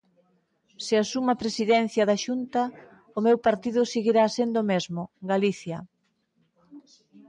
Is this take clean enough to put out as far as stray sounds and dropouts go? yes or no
yes